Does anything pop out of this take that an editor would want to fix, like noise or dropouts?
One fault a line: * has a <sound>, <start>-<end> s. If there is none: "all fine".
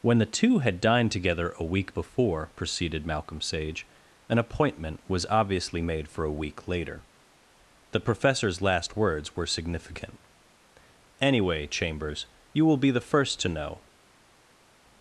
all fine